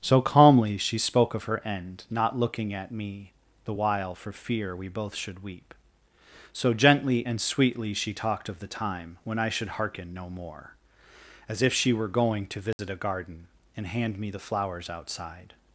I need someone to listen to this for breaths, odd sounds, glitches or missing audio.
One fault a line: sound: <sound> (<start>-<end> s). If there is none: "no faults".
sound: dropout (12.7-12.8 s)